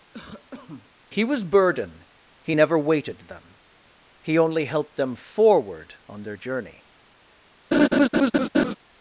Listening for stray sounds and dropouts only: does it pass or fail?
fail